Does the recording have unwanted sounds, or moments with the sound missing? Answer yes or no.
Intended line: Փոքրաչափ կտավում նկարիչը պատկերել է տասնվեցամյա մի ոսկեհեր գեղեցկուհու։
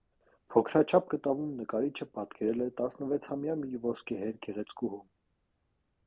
no